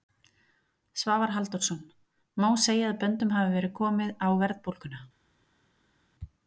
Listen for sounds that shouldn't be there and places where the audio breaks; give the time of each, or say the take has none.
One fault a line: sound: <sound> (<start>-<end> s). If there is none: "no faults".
no faults